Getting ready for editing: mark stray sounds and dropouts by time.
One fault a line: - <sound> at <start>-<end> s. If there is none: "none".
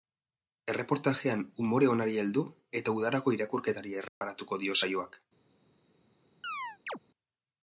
- dropout at 4.1-4.2 s
- chirp at 6.4-7.0 s